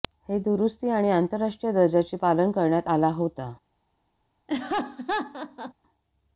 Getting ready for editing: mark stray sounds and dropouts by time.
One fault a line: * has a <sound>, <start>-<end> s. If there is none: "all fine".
* has a laugh, 4.5-5.7 s